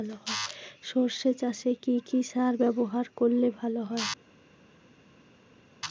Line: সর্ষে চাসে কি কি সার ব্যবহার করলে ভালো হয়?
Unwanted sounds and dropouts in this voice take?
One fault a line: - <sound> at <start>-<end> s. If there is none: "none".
none